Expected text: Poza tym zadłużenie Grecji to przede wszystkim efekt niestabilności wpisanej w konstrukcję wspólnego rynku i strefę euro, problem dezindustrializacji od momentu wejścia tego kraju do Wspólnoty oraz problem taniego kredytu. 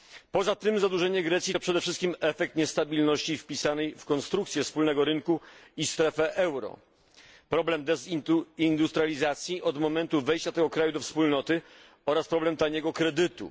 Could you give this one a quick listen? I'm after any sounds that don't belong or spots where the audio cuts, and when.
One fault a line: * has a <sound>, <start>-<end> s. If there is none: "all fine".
all fine